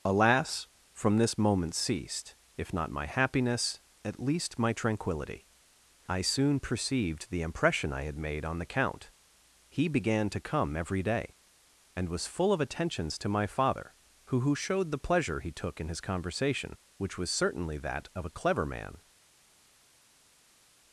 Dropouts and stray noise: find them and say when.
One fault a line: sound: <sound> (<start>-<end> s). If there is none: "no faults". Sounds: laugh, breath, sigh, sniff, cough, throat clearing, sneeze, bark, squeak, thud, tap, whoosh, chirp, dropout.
no faults